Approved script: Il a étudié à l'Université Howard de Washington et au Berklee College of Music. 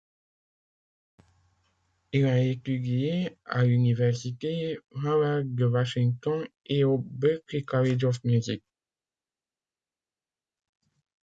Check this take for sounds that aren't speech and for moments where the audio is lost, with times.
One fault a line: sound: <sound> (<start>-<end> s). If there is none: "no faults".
no faults